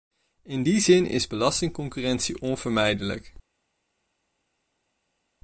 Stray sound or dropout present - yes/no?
no